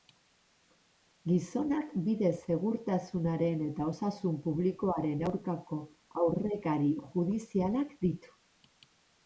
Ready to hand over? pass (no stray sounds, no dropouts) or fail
pass